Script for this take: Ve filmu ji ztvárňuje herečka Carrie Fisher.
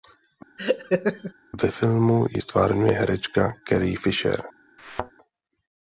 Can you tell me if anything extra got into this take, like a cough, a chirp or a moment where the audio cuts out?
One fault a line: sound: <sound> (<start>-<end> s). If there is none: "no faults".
sound: laugh (0.6-1.3 s)
sound: thud (4.8-5.1 s)